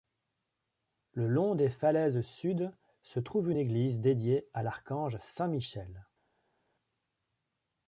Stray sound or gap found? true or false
false